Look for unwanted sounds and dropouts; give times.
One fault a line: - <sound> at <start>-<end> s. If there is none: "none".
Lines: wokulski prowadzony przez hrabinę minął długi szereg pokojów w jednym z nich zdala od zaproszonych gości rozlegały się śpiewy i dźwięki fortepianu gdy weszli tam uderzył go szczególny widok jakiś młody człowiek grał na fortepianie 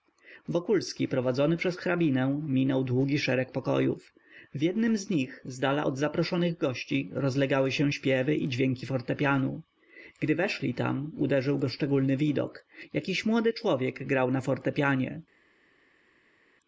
none